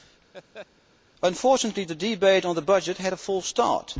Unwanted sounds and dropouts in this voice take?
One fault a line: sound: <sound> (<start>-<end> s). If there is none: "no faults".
sound: laugh (0.3-0.7 s)